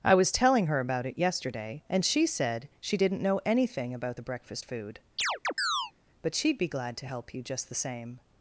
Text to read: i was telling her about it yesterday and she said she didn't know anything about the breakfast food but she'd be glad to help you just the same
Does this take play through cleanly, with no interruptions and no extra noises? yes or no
no